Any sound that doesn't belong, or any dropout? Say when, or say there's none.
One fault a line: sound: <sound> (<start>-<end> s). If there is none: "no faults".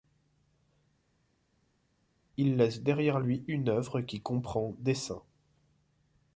no faults